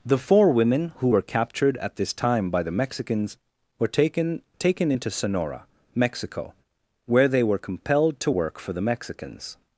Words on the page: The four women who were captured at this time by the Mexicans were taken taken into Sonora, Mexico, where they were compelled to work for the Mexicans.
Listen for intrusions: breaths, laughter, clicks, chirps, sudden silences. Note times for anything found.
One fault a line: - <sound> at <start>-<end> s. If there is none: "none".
none